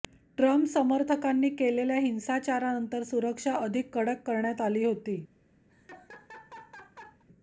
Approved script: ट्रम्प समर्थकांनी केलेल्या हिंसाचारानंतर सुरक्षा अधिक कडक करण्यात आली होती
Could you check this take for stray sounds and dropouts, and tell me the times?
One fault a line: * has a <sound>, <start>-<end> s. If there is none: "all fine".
* has a laugh, 5.7-7.2 s